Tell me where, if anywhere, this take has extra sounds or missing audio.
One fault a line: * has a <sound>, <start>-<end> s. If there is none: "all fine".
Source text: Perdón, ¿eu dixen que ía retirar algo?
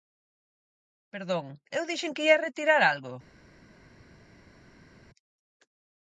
all fine